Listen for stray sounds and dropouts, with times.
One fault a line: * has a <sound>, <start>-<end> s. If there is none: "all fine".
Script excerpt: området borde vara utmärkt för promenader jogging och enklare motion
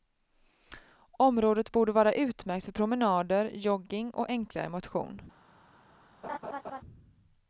* has a laugh, 6.2-6.8 s